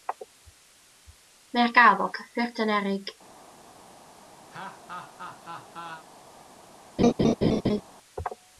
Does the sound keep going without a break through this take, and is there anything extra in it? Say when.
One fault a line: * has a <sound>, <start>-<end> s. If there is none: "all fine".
* has a laugh, 4.5-6.0 s
* has a laugh, 7.0-7.8 s